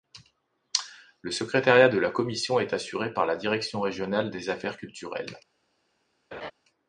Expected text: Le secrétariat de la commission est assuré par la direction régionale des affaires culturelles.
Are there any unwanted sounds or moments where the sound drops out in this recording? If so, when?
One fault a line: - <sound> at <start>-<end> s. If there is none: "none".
- laugh at 6.3-6.5 s